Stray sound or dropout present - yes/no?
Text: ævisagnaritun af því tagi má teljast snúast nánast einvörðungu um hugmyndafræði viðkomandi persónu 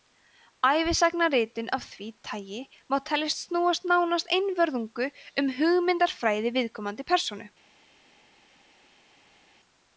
no